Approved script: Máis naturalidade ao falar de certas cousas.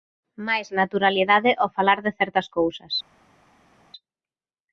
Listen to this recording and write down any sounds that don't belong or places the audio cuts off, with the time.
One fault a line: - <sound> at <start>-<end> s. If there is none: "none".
none